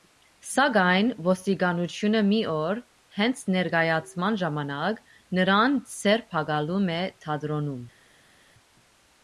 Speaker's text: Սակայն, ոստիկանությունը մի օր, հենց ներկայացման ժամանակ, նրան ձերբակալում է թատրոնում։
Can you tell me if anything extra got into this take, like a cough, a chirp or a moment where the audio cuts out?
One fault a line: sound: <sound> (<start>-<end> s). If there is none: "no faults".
no faults